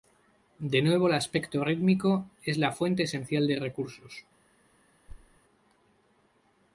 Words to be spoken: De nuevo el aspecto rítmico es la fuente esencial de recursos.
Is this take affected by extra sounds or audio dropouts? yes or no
yes